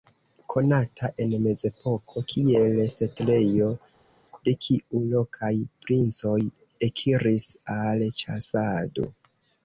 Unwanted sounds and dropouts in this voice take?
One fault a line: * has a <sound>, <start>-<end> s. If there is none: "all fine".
all fine